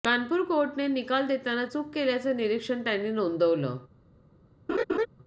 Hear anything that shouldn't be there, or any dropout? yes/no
yes